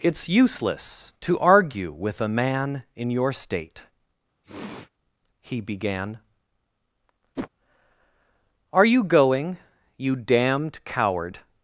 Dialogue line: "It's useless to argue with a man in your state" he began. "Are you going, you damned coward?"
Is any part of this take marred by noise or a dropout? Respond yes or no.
yes